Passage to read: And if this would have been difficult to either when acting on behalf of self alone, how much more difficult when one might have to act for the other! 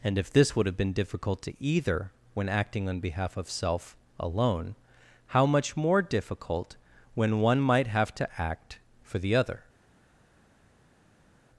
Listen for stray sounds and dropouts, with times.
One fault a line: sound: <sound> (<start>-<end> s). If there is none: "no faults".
no faults